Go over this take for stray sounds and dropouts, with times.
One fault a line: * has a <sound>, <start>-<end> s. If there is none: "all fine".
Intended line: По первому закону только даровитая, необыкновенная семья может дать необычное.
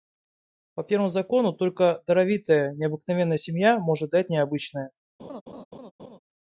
* has a laugh, 5.2-6.2 s